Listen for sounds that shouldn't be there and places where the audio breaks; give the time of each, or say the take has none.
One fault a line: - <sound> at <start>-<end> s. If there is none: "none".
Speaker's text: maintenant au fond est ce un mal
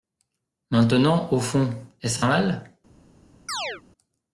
- chirp at 3.5-3.8 s